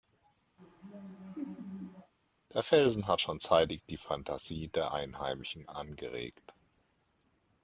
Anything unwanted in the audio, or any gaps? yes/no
yes